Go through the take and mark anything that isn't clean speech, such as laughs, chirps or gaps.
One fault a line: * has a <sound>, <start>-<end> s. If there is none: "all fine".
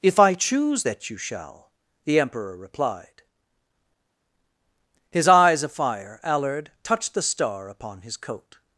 all fine